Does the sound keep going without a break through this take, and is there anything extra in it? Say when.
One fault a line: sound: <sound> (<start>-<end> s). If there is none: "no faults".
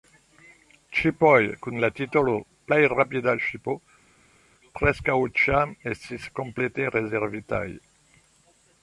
no faults